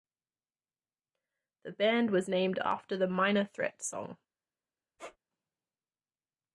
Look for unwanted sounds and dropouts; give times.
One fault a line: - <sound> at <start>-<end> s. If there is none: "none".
- squeak at 5.0-5.2 s